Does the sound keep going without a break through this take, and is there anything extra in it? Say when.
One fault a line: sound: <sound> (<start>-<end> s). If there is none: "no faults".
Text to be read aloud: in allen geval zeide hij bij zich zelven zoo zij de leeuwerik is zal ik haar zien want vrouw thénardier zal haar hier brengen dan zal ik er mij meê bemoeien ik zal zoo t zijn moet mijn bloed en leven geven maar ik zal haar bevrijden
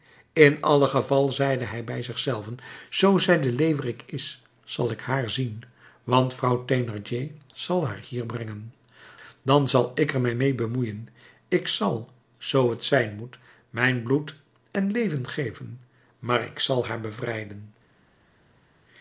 no faults